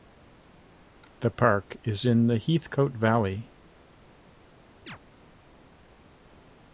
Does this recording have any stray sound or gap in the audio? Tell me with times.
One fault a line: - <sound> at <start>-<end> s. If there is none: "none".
- chirp at 4.9-5.0 s